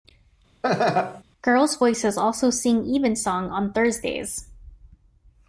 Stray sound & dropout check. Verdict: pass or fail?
fail